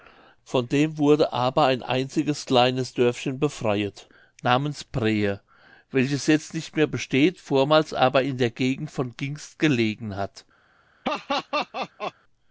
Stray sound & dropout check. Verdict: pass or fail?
fail